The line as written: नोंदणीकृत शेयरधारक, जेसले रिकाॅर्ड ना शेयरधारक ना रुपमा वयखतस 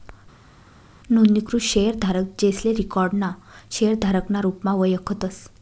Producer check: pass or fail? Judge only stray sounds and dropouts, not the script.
pass